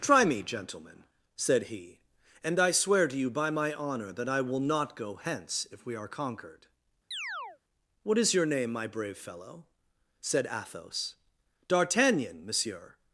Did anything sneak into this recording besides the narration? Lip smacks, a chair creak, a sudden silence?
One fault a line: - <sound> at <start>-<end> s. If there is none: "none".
- chirp at 7.1-7.6 s